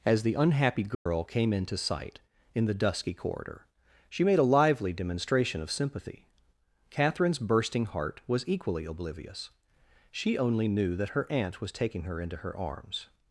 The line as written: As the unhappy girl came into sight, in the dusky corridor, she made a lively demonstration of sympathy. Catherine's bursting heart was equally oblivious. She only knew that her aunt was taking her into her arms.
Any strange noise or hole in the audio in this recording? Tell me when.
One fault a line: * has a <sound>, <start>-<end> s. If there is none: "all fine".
* has a dropout, 0.9-1.1 s